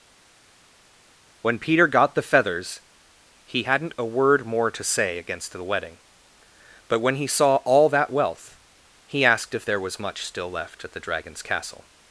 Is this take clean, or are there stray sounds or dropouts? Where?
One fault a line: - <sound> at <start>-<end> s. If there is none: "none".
none